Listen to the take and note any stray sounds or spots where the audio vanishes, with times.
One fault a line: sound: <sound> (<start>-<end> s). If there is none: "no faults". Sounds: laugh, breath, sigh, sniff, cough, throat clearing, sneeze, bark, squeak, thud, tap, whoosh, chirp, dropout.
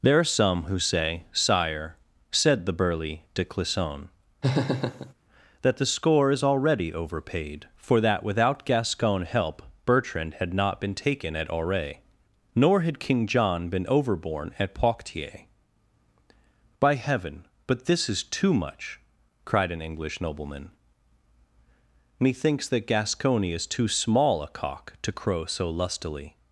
sound: laugh (4.4-5.1 s)